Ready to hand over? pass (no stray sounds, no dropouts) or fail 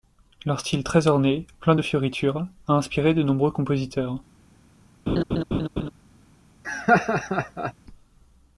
fail